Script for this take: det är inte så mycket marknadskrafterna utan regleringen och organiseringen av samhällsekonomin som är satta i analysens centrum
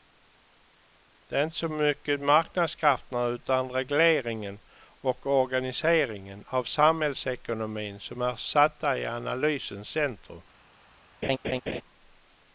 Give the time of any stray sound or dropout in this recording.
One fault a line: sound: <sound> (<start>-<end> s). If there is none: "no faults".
sound: laugh (11.2-11.8 s)